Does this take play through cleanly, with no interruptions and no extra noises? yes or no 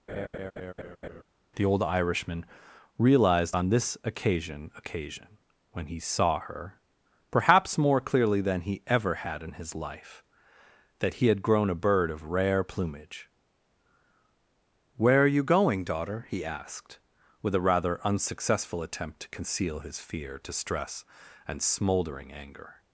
no